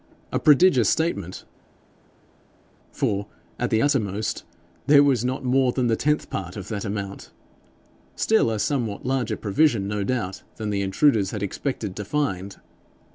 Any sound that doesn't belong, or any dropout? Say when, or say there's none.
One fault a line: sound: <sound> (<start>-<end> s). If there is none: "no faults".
no faults